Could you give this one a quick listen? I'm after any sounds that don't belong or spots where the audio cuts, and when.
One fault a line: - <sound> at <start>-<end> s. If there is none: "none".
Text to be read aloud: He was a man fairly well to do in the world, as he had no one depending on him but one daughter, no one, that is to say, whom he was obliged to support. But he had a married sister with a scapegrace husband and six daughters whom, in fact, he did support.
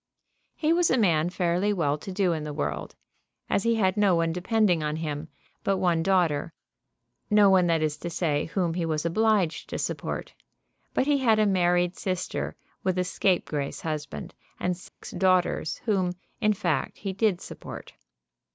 - dropout at 14.9-15.0 s